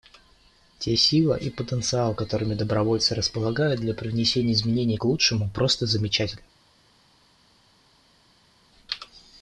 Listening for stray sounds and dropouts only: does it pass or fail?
pass